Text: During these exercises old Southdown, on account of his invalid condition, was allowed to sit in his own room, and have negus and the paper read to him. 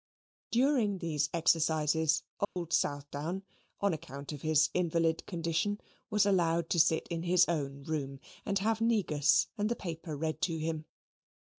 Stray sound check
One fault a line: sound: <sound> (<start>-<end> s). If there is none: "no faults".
sound: dropout (2.4-2.6 s)